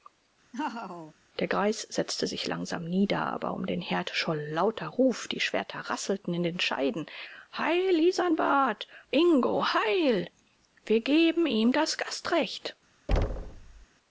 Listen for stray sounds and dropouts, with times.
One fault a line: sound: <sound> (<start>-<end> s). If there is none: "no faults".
sound: laugh (0.5-1.1 s)
sound: thud (13.1-13.9 s)